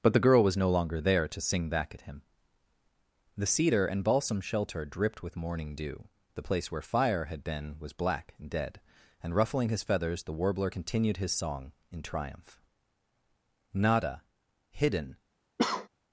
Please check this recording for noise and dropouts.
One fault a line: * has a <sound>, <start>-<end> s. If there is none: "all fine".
* has a cough, 15.6-15.9 s